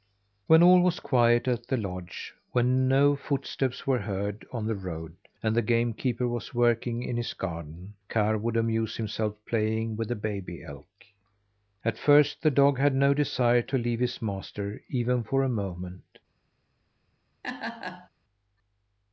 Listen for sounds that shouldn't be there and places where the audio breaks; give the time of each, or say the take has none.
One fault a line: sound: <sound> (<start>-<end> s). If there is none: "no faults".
sound: laugh (17.4-18.1 s)